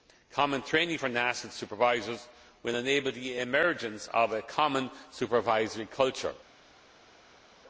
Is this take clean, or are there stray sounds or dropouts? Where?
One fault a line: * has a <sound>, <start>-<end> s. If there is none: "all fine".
all fine